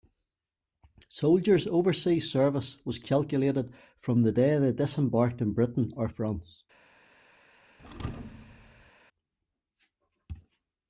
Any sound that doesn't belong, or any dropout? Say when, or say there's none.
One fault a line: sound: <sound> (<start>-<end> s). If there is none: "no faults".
sound: thud (7.8-8.9 s)